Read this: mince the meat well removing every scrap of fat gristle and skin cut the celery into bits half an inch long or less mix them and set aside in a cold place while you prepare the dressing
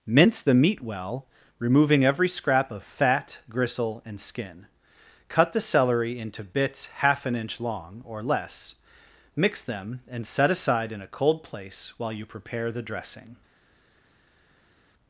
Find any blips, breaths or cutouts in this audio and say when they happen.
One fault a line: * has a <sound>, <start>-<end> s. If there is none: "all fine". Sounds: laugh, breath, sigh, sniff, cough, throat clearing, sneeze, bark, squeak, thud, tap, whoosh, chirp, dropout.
all fine